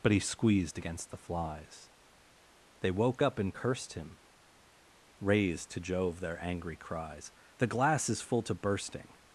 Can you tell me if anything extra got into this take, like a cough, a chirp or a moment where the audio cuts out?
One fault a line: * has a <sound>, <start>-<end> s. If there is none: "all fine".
all fine